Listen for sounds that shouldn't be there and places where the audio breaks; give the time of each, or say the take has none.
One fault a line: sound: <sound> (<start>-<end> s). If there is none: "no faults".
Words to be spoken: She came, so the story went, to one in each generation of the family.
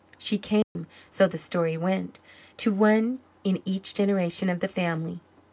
sound: dropout (0.6-0.8 s)